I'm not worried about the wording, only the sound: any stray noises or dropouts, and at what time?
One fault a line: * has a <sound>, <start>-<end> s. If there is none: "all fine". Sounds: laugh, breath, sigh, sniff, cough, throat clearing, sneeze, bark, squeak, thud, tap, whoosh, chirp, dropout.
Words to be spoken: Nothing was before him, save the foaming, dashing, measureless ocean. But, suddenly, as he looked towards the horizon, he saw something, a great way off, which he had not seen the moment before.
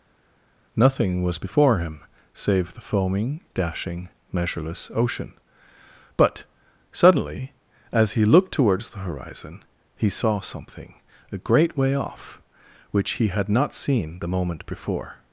all fine